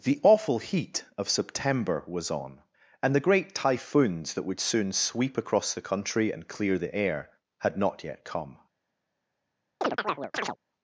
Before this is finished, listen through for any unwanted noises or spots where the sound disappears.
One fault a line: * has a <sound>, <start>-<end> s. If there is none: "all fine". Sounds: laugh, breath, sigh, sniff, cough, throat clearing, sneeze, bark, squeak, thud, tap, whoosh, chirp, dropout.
* has a chirp, 9.8-10.6 s